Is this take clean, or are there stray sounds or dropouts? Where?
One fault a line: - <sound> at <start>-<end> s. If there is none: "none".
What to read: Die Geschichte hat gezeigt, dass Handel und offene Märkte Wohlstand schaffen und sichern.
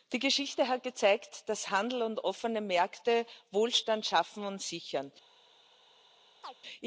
- chirp at 6.4-6.6 s